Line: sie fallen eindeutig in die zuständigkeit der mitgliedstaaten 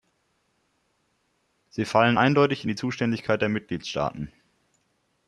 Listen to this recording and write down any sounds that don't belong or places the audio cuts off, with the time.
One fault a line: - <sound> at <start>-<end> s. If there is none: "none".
none